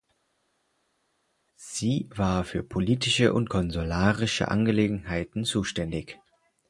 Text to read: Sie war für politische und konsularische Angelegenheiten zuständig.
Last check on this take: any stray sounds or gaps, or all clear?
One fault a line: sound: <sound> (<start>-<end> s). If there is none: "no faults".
no faults